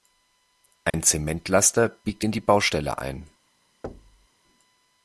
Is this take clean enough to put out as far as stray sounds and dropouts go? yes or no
no